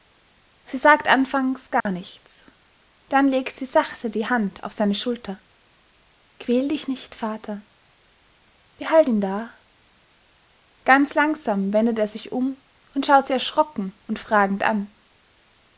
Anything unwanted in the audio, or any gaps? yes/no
yes